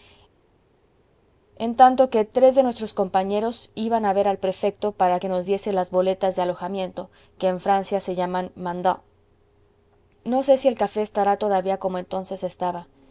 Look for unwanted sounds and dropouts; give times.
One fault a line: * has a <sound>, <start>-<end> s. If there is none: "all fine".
all fine